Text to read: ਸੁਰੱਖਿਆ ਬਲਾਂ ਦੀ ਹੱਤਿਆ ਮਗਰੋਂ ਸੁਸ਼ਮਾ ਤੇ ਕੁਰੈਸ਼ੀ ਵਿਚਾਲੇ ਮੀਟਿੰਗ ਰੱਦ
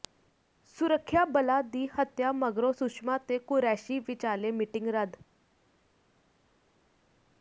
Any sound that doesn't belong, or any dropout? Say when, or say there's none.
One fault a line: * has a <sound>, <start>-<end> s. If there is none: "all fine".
all fine